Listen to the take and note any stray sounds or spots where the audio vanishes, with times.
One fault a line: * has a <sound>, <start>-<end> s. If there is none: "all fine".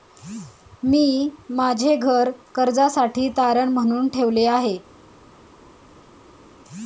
all fine